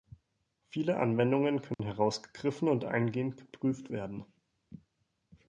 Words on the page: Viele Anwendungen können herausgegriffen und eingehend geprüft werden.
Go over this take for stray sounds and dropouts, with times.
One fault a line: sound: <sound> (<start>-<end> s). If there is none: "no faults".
sound: dropout (1.7-1.8 s)